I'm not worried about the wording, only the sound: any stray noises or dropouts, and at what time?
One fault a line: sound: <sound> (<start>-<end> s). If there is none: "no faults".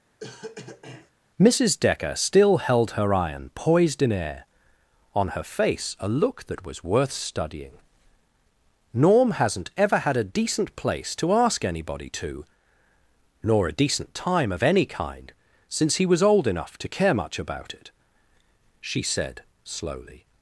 sound: cough (0.2-1.1 s)